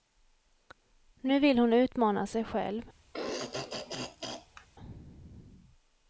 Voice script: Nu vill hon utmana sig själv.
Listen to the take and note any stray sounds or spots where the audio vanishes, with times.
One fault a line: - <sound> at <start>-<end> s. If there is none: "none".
- throat clearing at 3.1-4.7 s